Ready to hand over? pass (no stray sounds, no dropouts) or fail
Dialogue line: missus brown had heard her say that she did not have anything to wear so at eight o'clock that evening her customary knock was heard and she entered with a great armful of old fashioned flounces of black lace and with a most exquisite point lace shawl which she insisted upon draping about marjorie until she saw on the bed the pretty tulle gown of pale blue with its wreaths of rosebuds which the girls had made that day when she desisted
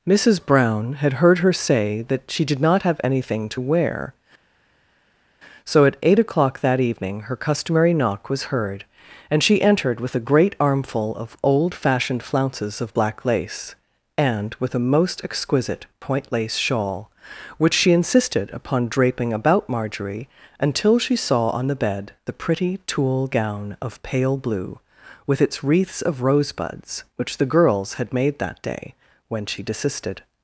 pass